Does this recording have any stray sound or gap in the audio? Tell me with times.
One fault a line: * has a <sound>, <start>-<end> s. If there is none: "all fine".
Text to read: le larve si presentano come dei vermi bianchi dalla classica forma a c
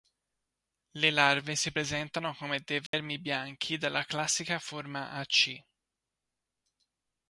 * has a dropout, 2.9-2.9 s